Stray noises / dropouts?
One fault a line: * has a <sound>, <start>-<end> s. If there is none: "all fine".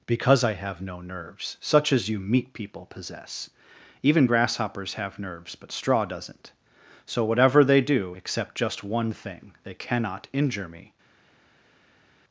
all fine